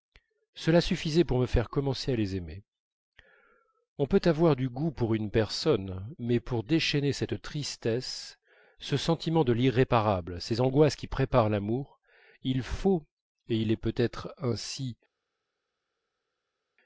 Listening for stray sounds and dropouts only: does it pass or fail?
pass